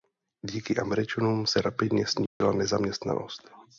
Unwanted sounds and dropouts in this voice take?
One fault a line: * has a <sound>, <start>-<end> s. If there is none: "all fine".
* has a dropout, 2.3-2.4 s